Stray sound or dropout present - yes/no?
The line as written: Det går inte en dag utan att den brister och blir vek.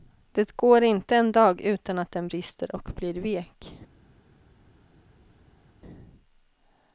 no